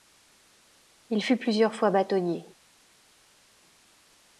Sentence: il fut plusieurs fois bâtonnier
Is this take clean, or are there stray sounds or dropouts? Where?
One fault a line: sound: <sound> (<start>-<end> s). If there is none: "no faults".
no faults